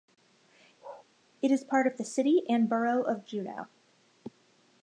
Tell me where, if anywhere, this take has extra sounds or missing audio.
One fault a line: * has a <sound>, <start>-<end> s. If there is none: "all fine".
* has a bark, 0.8-1.1 s